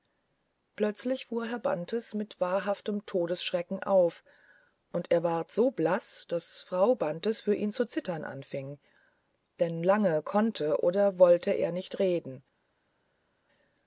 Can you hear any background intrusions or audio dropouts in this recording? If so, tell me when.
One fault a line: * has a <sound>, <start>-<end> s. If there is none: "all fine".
all fine